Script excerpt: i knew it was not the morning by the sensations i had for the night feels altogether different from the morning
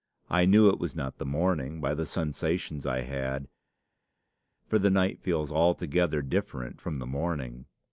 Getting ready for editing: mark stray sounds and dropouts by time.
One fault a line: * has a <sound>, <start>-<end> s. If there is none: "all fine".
all fine